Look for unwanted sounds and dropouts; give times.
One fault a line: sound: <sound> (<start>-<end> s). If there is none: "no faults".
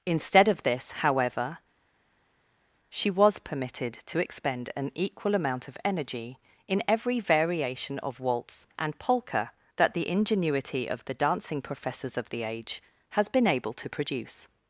no faults